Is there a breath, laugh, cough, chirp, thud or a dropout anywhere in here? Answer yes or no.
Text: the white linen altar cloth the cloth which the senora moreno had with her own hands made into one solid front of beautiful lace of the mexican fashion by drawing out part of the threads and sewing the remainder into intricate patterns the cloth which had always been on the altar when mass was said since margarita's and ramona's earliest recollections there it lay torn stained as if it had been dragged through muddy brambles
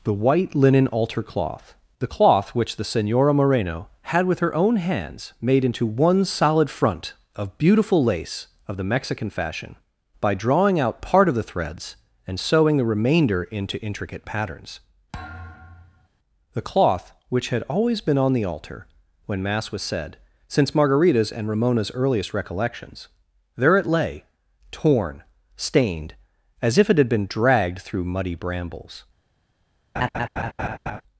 yes